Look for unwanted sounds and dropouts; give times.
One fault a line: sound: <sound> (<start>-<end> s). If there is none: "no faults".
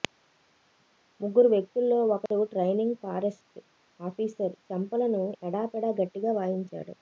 sound: dropout (2.3-2.3 s)